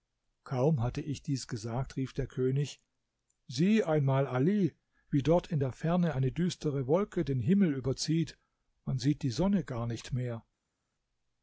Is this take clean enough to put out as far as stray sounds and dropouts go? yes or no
yes